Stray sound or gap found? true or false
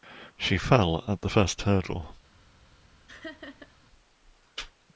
true